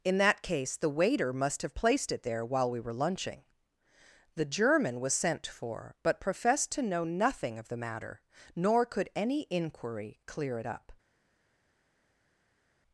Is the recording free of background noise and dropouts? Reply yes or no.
yes